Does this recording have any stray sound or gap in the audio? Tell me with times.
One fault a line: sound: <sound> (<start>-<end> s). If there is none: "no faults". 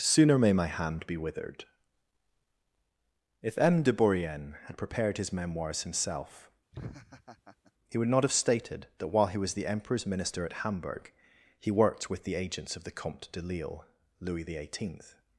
sound: laugh (6.7-7.7 s)